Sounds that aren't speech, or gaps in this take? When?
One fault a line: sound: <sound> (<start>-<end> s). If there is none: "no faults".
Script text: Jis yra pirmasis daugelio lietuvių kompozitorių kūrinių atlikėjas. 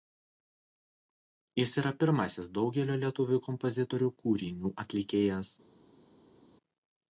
no faults